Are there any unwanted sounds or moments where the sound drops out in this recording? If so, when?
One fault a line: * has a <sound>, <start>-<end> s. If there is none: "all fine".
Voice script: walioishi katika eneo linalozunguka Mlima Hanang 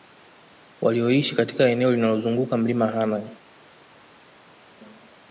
all fine